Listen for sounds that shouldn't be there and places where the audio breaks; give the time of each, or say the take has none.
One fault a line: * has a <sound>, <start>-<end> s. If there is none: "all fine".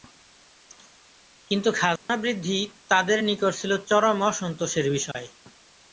* has a dropout, 2.0-2.1 s
* has a dropout, 5.1-5.1 s